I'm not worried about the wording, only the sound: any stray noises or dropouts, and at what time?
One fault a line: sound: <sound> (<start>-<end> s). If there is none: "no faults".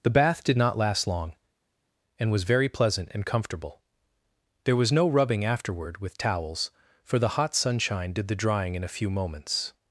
no faults